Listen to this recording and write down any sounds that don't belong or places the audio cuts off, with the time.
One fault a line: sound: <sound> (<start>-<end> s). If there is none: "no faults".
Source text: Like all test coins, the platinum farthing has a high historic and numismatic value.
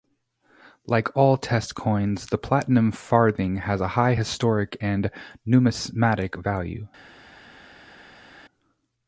no faults